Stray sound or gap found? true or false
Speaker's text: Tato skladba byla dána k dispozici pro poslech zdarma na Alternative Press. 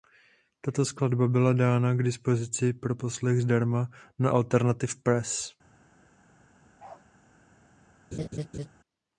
true